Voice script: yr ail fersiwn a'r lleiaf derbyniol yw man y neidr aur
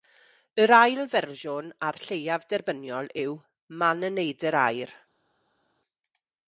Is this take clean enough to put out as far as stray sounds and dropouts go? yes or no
yes